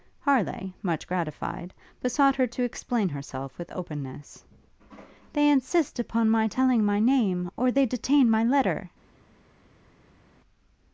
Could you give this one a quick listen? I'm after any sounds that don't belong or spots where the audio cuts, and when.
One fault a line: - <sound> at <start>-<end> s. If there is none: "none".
none